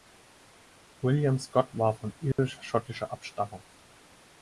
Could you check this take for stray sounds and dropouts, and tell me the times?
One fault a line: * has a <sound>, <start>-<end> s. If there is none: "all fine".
* has a dropout, 2.3-2.4 s